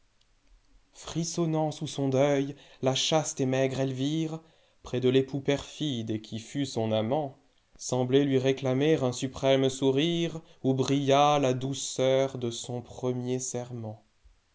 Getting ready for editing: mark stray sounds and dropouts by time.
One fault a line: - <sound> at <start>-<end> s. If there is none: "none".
none